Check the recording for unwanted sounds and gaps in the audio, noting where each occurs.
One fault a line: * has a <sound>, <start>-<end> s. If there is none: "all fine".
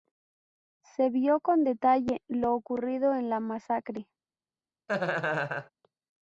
* has a laugh, 4.9-5.7 s